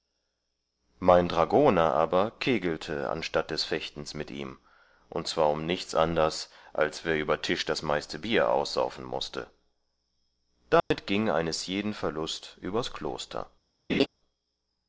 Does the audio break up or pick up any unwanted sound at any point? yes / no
yes